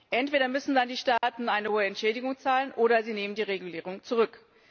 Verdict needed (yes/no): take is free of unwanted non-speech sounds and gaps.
no